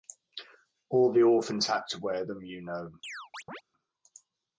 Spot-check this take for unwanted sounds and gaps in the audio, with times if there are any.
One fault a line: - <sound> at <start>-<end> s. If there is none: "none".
- chirp at 3.0-3.6 s